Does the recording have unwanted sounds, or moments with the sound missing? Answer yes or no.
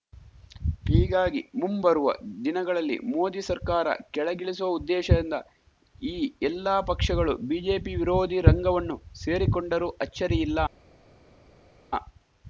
no